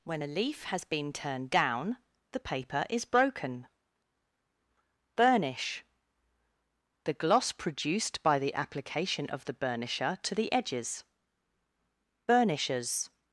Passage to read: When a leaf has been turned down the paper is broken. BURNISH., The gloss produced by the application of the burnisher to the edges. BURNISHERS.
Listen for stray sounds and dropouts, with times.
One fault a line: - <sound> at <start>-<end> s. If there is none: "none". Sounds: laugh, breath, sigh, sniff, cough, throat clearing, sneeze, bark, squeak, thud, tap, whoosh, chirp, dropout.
none